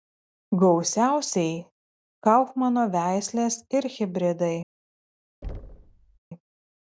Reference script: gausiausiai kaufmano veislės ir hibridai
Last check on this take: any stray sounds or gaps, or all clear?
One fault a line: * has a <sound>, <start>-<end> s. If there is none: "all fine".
* has a thud, 5.4-6.2 s